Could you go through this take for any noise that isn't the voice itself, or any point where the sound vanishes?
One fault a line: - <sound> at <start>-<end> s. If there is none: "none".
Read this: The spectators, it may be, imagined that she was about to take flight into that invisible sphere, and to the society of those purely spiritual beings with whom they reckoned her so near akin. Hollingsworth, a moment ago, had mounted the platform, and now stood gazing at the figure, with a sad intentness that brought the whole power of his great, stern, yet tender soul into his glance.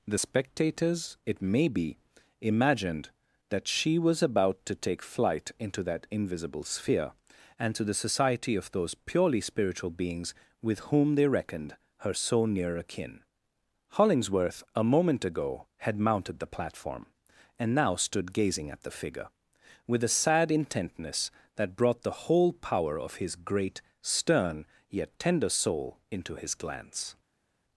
none